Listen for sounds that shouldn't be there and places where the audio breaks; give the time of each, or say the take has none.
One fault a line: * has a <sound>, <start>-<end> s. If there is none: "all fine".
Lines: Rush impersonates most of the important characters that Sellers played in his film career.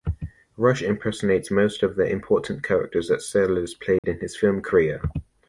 * has a dropout, 4.0-4.0 s